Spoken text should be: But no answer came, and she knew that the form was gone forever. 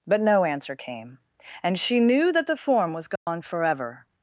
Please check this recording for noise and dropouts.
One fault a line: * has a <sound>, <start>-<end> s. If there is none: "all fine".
* has a dropout, 3.2-3.3 s